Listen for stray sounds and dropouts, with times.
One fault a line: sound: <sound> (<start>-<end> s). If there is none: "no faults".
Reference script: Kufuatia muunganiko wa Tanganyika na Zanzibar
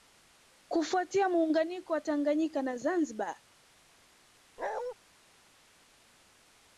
sound: bark (4.6-4.9 s)